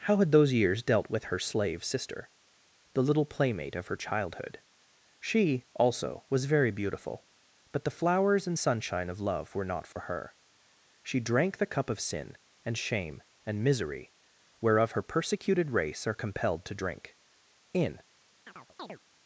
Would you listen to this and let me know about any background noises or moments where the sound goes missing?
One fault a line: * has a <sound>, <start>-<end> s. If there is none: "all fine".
* has a dropout, 9.9-10.0 s
* has a chirp, 18.5-19.0 s